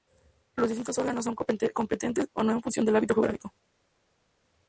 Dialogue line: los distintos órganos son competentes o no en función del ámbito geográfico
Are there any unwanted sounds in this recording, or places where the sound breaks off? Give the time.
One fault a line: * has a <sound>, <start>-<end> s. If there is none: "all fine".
all fine